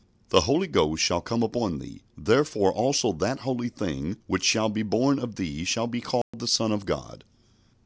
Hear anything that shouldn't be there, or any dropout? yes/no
yes